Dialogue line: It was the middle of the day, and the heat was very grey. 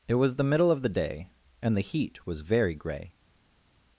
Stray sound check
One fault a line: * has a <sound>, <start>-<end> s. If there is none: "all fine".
all fine